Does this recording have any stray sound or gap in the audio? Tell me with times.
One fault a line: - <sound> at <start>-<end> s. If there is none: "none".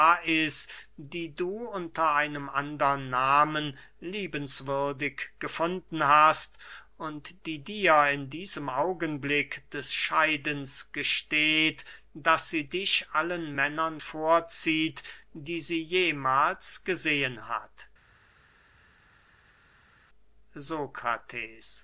none